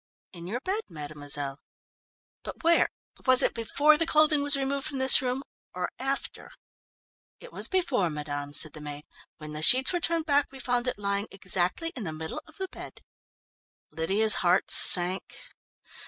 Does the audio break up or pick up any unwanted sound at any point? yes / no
no